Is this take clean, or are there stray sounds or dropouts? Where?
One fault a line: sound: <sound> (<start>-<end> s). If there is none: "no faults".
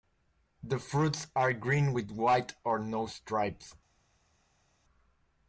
no faults